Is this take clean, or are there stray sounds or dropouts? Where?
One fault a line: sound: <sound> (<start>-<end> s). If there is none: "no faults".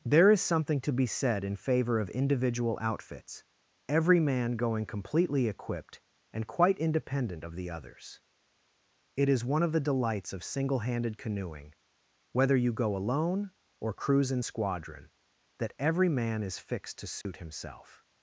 sound: dropout (17.2-17.3 s)